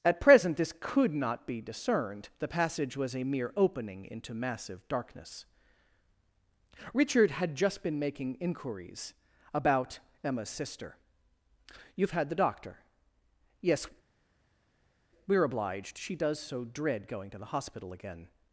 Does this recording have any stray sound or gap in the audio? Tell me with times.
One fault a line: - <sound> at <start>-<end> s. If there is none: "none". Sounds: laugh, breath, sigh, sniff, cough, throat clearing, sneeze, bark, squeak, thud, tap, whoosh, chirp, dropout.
none